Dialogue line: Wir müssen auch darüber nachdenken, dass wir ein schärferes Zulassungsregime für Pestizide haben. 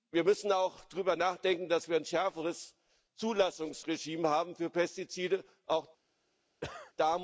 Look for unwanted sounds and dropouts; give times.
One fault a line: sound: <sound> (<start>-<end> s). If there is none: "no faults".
sound: cough (6.6-6.9 s)